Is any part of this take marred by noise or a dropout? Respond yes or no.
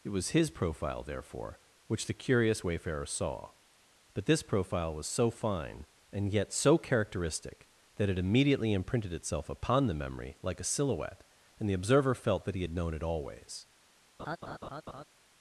yes